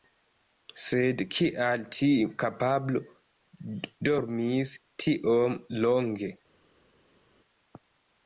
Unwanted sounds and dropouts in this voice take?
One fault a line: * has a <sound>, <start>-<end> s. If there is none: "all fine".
all fine